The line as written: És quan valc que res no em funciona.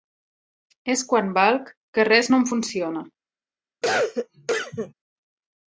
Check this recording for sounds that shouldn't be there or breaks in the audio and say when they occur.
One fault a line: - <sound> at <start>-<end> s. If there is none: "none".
- cough at 3.8-4.9 s